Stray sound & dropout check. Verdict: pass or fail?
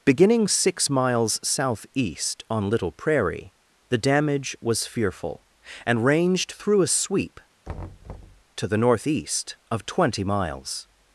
fail